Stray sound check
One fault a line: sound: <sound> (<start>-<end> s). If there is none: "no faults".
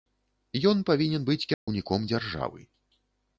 sound: dropout (1.5-1.7 s)